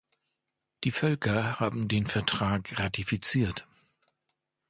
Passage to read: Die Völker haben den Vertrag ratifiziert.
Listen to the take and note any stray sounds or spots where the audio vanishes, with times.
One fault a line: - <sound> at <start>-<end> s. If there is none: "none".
none